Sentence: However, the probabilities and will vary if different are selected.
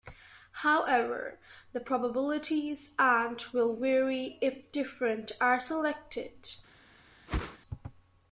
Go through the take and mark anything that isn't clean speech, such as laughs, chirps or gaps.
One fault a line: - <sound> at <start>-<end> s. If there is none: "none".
- whoosh at 7.3-7.6 s